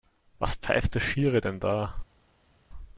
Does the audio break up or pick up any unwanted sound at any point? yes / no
no